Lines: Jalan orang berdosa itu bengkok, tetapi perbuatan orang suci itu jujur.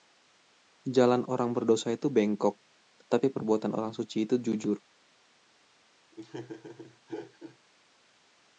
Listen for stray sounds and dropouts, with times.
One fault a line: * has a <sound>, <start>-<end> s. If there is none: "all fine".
* has a laugh, 6.1-7.6 s